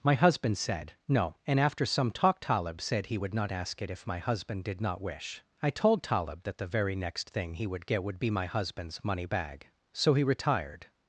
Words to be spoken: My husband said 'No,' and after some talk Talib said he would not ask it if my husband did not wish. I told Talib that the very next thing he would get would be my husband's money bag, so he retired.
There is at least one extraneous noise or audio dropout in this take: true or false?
false